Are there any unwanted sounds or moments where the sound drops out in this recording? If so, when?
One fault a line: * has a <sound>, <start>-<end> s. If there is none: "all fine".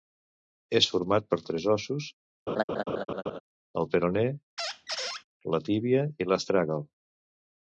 * has a laugh, 2.5-3.4 s
* has a squeak, 4.6-5.2 s